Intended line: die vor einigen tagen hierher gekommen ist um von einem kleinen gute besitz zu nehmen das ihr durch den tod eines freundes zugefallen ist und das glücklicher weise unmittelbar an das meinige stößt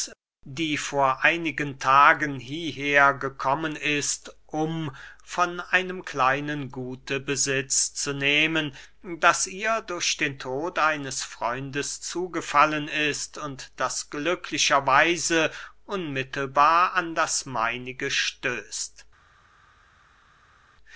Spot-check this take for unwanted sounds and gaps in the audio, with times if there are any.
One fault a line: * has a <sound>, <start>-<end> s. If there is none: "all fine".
all fine